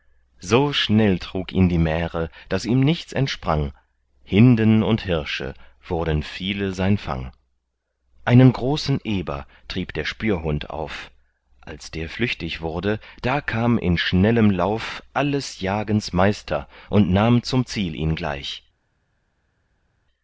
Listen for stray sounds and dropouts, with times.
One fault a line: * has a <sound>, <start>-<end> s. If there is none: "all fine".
all fine